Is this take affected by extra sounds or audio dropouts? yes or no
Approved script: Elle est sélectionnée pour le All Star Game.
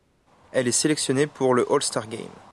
no